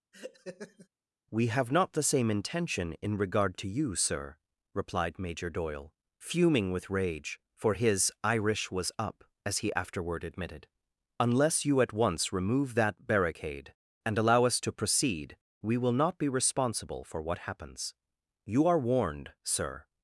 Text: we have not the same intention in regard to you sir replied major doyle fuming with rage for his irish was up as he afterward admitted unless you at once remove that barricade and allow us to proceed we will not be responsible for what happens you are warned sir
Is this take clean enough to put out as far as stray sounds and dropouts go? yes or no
no